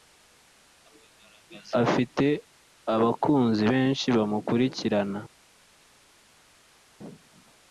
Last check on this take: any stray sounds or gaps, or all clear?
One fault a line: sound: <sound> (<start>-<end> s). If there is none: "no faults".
no faults